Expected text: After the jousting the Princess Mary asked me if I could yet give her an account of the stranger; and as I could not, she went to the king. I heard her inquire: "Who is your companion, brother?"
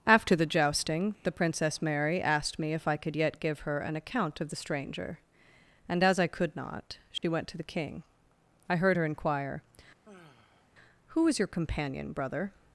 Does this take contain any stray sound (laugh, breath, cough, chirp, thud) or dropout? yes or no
yes